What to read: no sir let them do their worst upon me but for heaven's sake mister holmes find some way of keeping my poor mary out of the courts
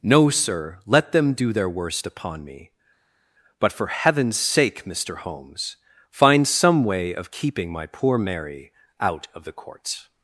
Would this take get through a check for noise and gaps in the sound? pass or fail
pass